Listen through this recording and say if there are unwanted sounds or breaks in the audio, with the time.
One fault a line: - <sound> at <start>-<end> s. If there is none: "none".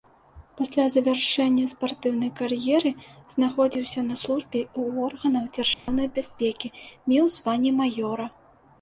- dropout at 5.7-5.9 s